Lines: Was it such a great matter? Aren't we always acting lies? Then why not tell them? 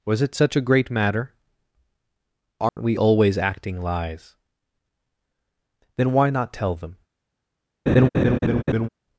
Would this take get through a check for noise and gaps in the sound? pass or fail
fail